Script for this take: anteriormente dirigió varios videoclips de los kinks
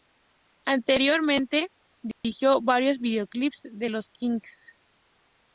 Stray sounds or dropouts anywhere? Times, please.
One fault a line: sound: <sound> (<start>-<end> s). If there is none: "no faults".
sound: dropout (2.1-2.2 s)